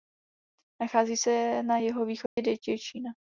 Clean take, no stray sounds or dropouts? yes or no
no